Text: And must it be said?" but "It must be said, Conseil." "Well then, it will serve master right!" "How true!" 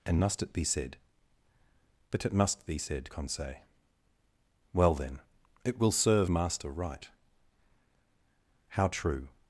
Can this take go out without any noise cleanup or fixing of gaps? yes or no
yes